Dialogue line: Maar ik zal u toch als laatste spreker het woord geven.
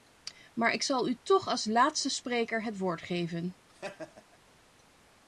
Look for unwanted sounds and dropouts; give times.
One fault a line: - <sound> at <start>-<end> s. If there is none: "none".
- laugh at 3.7-4.4 s